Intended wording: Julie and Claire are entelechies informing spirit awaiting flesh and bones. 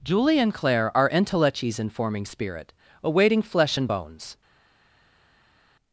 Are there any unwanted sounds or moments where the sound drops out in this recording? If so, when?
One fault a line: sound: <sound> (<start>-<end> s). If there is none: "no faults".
no faults